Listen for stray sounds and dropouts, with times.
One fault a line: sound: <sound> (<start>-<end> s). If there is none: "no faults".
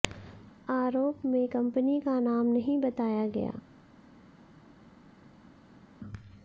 no faults